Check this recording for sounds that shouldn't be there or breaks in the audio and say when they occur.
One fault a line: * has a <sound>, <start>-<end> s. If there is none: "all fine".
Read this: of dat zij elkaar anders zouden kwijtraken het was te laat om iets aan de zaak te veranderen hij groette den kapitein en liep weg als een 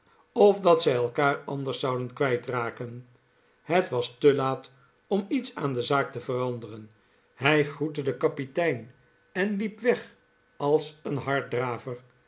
all fine